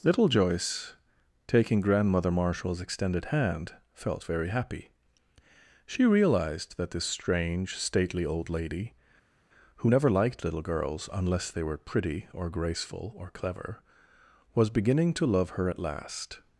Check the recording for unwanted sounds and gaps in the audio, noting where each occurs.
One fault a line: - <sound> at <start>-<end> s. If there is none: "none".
none